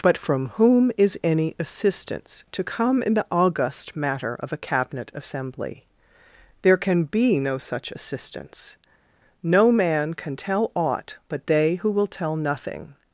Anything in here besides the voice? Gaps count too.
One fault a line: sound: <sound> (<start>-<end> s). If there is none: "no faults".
no faults